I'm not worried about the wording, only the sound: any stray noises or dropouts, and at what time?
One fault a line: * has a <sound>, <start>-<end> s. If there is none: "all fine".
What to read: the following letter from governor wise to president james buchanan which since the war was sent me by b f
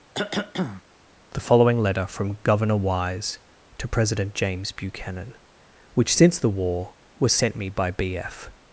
* has a cough, 0.1-0.8 s